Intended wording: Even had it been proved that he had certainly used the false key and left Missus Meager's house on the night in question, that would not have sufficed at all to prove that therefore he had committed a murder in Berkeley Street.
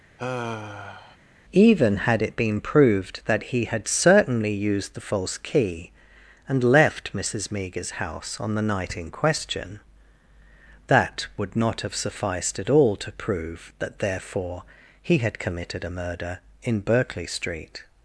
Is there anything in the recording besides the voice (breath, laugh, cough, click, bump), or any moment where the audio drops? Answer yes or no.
yes